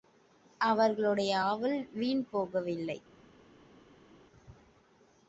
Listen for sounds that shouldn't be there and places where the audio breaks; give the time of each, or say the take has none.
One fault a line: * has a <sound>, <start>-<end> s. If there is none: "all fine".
all fine